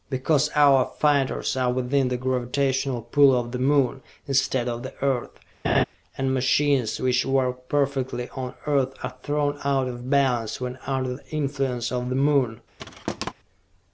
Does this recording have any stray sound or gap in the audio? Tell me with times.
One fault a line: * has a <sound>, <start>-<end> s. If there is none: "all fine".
* has a laugh, 5.6-5.8 s
* has a thud, 12.8-13.3 s